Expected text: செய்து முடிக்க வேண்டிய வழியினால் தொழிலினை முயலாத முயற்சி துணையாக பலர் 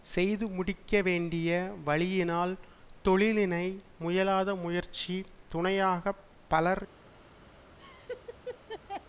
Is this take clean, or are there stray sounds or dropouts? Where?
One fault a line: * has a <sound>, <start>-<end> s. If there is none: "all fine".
* has a laugh, 7.8-9.1 s